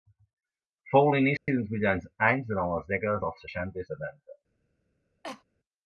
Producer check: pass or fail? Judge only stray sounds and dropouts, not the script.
fail